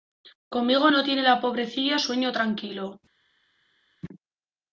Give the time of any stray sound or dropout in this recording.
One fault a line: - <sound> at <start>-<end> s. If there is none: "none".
none